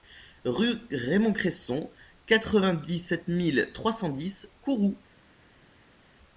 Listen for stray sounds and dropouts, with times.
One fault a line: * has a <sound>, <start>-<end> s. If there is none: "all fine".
all fine